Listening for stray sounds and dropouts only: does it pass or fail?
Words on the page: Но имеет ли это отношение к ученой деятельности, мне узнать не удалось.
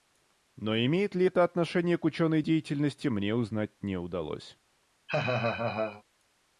fail